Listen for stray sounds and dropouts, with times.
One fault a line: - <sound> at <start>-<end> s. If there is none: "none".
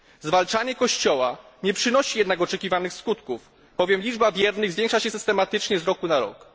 none